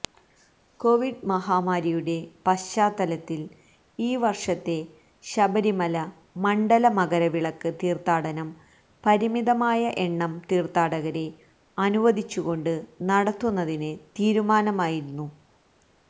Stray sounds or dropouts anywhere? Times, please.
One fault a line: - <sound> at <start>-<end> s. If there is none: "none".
none